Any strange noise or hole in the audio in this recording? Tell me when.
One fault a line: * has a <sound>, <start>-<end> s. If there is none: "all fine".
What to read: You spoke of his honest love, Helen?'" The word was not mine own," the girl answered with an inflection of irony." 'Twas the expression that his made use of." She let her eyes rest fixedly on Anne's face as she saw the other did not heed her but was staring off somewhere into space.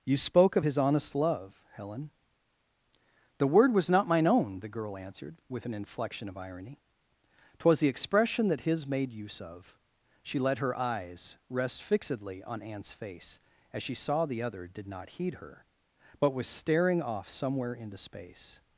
all fine